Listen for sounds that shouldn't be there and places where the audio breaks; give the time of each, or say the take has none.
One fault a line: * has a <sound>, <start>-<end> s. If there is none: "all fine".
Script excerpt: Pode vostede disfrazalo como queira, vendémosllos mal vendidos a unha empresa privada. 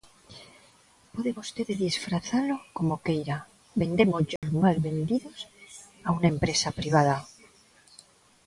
* has a dropout, 4.4-4.4 s